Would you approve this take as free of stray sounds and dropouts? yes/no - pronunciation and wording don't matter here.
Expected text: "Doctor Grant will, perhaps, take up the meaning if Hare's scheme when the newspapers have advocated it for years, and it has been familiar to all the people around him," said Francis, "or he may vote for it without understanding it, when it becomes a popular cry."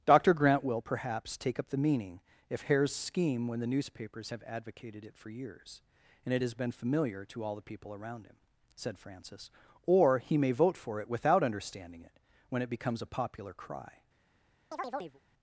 no